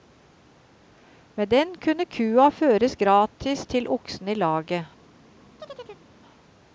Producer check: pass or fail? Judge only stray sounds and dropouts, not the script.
fail